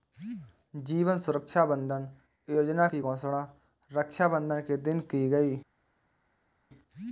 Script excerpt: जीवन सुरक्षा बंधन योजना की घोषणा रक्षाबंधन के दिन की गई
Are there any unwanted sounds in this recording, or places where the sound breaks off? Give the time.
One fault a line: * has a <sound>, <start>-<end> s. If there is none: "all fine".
all fine